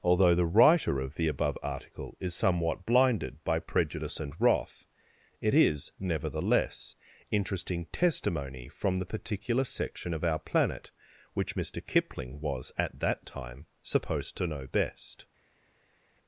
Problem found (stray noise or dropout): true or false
false